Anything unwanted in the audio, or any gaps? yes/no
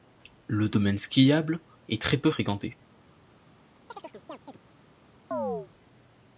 yes